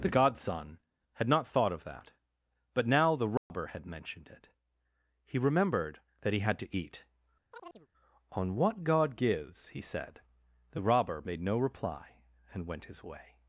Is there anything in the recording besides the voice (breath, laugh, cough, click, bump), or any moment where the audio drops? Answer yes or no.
yes